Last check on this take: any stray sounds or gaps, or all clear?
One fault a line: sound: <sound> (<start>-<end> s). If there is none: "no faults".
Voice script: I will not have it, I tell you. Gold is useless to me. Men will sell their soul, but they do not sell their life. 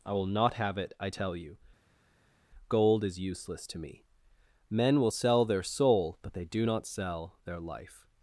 no faults